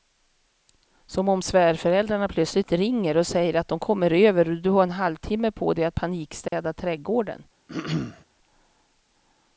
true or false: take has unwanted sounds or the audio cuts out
true